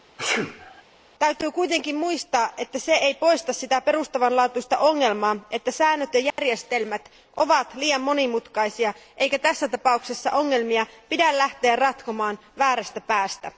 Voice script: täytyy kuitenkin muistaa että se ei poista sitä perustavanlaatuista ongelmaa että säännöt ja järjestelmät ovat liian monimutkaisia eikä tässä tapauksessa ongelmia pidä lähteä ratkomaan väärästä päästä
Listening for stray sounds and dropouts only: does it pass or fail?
fail